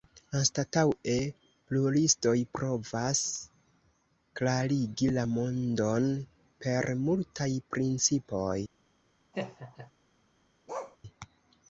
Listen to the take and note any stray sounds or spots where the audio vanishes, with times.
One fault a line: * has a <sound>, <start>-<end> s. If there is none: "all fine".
* has a laugh, 9.3-9.9 s
* has a bark, 10.7-11.0 s